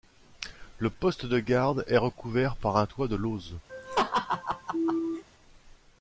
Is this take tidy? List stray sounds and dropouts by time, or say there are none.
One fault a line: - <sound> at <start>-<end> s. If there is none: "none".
- laugh at 3.7-5.2 s